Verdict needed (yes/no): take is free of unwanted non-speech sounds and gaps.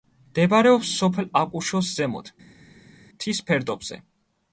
yes